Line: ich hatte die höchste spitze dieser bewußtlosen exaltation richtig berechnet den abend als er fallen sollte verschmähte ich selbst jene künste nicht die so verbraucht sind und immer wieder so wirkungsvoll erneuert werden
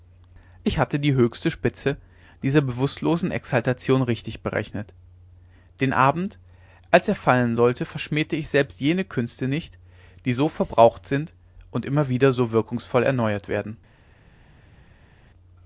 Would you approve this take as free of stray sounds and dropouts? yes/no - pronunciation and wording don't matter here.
yes